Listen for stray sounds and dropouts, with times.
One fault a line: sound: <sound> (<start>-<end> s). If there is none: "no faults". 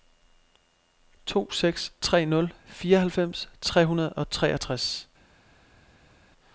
no faults